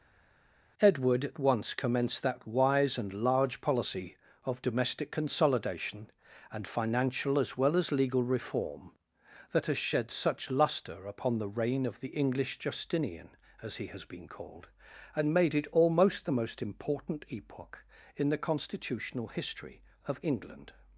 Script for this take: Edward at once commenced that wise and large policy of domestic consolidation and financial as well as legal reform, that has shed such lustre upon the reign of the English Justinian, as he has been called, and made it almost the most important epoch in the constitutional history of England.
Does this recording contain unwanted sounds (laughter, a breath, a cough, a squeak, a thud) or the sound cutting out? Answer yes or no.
no